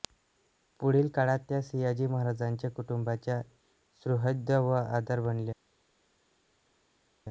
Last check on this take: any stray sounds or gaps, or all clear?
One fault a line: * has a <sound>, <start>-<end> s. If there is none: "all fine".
all fine